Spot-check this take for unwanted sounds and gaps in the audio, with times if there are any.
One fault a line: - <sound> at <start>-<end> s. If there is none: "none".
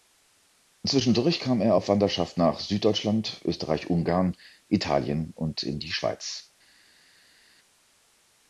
none